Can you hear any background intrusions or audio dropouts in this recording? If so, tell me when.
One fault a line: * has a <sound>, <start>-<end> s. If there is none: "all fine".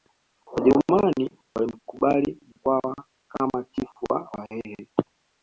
all fine